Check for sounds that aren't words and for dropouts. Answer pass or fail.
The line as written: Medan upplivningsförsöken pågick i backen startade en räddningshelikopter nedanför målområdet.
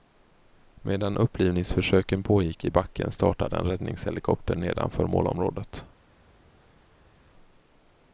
pass